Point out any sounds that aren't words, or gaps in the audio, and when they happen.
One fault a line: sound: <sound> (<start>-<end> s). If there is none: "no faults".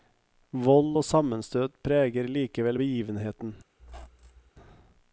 sound: squeak (3.8-4.5 s)